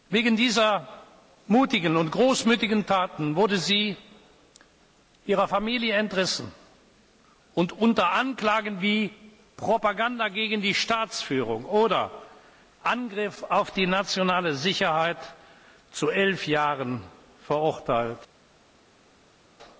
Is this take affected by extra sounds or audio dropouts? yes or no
no